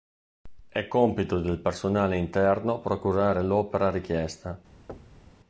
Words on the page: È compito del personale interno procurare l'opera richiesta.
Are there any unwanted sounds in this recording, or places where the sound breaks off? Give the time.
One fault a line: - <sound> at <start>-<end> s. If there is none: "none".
- thud at 4.9-5.3 s